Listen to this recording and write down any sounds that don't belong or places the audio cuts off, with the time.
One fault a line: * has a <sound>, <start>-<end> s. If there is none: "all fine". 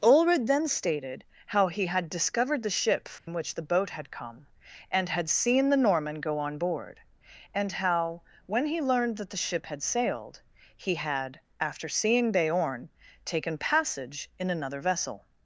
* has a dropout, 3.2-3.3 s